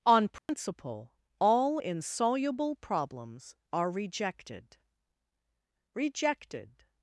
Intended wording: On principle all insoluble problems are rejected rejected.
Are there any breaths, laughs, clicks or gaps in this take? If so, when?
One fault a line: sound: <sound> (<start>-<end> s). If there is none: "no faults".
sound: dropout (0.4-0.5 s)